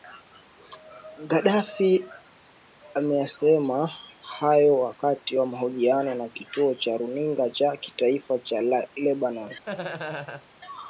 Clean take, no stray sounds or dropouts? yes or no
no